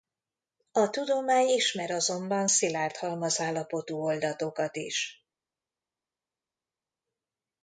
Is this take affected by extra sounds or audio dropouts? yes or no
no